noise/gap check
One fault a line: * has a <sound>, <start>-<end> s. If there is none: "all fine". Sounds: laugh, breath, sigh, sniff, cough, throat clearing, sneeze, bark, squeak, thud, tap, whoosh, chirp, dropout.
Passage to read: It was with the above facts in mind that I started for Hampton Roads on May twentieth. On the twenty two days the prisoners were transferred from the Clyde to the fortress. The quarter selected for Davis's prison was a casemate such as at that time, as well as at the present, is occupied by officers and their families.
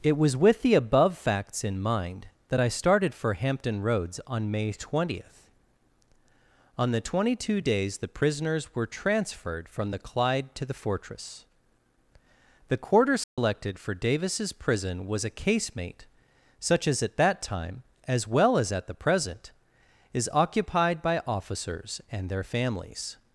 * has a dropout, 13.2-13.4 s